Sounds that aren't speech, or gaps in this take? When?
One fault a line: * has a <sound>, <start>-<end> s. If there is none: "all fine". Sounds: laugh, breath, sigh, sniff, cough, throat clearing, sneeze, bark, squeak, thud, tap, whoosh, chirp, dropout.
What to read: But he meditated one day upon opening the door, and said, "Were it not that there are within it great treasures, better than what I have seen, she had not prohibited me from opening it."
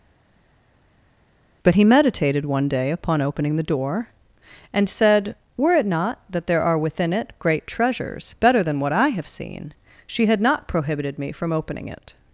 all fine